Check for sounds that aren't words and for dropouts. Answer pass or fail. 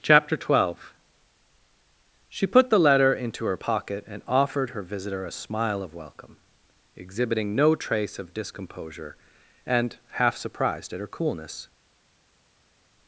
pass